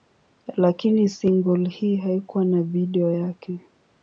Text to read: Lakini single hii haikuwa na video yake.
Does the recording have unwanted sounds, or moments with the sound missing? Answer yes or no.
no